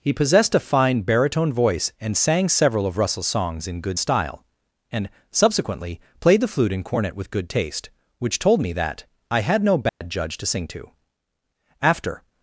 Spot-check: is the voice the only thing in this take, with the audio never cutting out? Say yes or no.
no